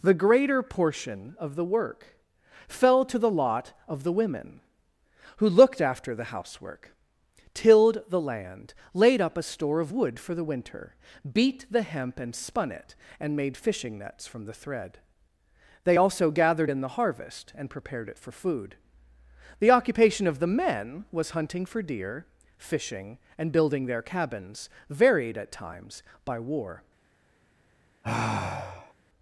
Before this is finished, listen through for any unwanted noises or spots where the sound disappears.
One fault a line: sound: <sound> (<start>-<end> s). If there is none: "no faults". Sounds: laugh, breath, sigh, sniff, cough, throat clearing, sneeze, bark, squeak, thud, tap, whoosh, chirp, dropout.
sound: sigh (28.0-28.9 s)